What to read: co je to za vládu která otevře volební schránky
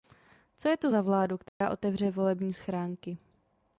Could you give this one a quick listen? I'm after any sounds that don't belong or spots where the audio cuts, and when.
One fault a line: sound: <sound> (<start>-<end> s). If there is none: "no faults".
sound: dropout (1.5-1.6 s)